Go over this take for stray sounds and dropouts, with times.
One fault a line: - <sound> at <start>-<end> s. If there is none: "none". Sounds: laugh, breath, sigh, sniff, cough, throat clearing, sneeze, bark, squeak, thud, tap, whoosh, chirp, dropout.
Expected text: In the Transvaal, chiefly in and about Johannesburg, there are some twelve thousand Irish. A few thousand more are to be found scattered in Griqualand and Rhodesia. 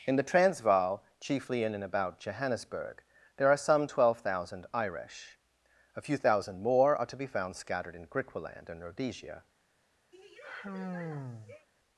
- sigh at 10.1-11.7 s